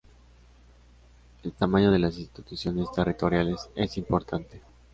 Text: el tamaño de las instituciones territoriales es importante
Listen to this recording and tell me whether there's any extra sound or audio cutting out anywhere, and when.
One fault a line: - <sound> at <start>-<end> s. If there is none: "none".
none